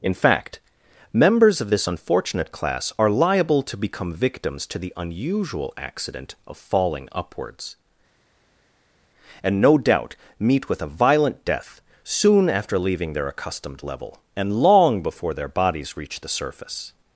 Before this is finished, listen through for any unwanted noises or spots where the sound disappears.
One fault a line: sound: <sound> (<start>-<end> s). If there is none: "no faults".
no faults